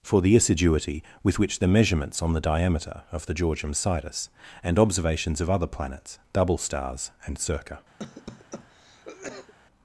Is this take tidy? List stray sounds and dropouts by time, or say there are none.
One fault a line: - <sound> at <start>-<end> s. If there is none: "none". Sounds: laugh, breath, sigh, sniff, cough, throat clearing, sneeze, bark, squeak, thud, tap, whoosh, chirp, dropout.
- cough at 8.0-9.5 s